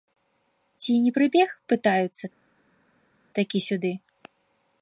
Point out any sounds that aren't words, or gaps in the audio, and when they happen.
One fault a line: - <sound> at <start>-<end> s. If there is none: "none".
none